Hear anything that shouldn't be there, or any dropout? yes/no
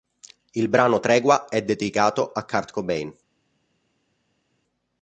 no